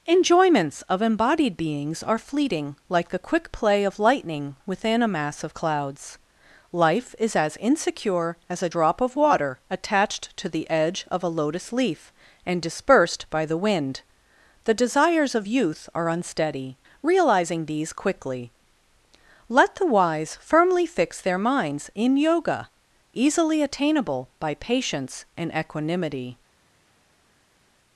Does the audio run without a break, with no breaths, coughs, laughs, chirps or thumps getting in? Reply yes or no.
yes